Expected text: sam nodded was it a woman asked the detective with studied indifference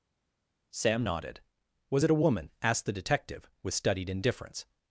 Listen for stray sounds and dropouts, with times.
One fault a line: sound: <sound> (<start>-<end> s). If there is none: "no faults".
no faults